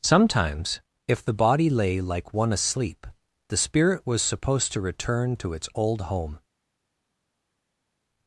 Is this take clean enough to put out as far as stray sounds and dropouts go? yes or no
yes